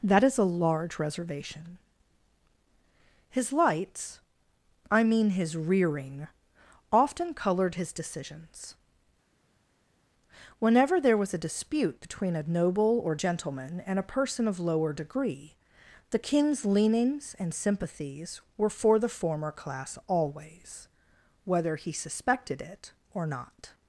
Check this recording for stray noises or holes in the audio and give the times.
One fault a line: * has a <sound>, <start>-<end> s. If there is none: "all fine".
all fine